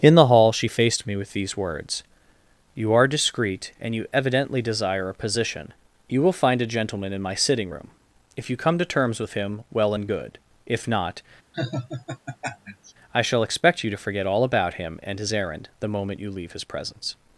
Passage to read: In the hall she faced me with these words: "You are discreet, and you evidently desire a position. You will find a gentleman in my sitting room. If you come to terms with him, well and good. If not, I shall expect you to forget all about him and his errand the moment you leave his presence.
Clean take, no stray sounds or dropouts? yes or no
no